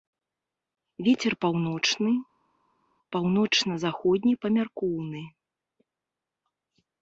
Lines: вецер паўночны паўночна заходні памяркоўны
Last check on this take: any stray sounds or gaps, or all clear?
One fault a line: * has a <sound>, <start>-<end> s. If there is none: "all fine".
all fine